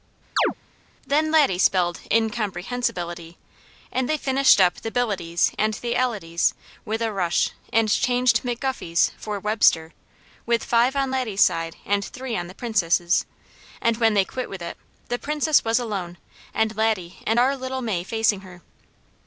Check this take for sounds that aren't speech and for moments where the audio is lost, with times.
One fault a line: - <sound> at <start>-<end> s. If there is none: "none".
- chirp at 0.4-0.5 s